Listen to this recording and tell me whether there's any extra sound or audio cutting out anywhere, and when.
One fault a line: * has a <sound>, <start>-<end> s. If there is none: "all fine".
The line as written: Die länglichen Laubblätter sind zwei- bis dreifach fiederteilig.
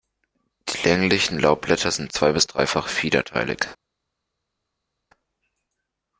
all fine